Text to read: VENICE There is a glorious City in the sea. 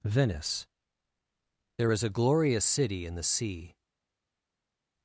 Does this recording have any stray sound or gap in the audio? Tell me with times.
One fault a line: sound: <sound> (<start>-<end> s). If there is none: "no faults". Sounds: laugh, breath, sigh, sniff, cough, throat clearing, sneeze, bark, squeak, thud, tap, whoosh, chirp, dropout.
no faults